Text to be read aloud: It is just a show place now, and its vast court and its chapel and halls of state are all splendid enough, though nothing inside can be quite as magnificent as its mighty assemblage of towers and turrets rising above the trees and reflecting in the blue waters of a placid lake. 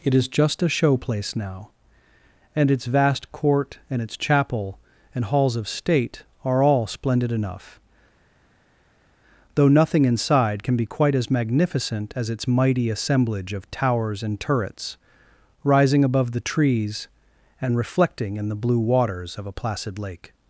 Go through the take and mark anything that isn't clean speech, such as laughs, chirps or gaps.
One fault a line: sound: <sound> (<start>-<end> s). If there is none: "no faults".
no faults